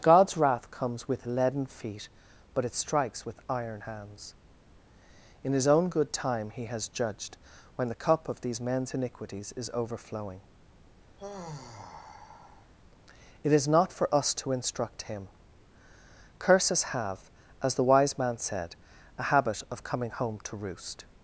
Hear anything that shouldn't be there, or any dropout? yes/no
yes